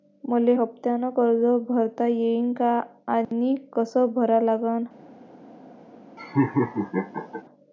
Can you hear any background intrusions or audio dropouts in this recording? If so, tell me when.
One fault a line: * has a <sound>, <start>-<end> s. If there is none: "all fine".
* has a dropout, 3.2-3.3 s
* has a laugh, 6.2-7.4 s